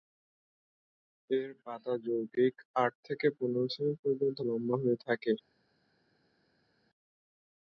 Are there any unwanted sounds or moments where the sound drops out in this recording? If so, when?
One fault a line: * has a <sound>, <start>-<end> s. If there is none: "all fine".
all fine